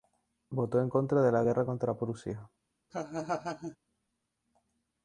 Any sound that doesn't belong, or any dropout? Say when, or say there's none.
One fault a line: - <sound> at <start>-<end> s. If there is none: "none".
- laugh at 2.9-3.8 s